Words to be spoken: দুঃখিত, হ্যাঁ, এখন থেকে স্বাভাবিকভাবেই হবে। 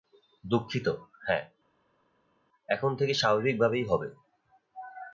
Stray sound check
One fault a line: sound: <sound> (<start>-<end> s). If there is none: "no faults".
no faults